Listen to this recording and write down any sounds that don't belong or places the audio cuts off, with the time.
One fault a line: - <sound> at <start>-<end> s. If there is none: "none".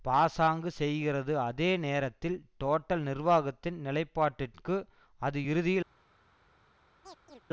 - chirp at 7.0-7.4 s